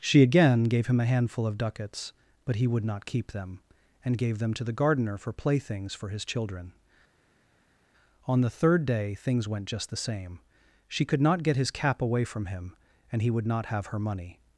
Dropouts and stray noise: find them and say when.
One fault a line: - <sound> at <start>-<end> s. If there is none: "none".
none